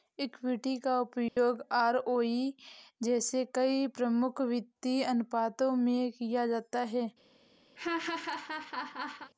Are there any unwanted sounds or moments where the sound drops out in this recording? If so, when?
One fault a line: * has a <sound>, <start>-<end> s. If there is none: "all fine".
* has a dropout, 1.3-1.4 s
* has a laugh, 7.8-9.3 s